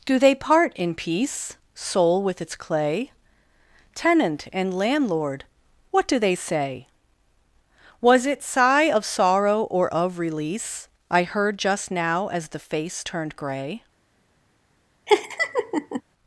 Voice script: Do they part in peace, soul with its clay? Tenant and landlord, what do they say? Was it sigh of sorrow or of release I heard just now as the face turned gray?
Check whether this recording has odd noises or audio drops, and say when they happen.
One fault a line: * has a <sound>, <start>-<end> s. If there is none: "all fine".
* has a laugh, 15.1-16.0 s